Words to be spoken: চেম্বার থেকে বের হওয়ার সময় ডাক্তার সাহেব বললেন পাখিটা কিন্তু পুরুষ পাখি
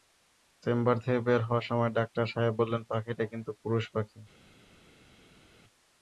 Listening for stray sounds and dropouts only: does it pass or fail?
pass